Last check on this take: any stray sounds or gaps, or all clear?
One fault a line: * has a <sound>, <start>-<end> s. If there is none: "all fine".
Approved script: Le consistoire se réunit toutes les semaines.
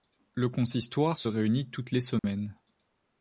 * has a dropout, 2.2-2.2 s